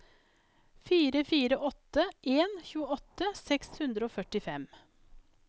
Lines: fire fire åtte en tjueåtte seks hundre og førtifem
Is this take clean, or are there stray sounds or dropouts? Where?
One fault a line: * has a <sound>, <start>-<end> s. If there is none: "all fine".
all fine